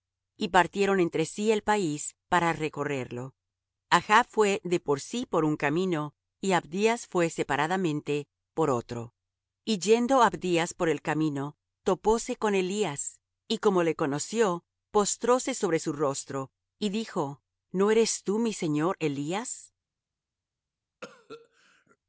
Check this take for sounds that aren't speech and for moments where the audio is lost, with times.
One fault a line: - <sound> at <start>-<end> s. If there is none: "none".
- cough at 21.0-22.0 s